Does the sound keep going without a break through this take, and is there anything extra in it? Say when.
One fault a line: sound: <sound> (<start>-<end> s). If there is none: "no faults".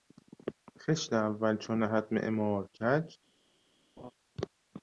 sound: laugh (4.0-4.1 s)